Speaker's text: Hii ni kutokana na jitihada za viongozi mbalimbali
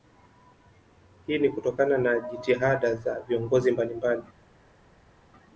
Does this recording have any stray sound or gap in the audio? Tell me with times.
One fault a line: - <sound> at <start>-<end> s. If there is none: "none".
none